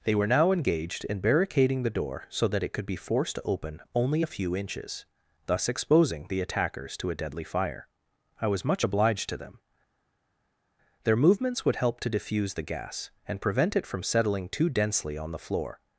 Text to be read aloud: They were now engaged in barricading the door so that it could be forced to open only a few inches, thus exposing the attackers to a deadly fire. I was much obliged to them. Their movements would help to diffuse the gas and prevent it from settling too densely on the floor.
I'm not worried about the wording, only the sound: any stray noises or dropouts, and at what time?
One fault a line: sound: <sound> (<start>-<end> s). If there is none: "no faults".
no faults